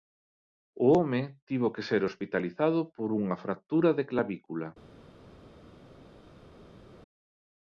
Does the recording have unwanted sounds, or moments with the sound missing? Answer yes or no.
no